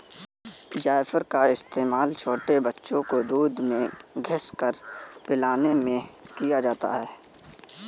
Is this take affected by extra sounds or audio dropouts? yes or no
no